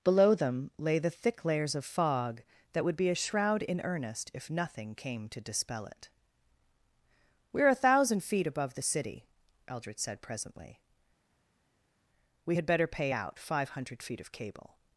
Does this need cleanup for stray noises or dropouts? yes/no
no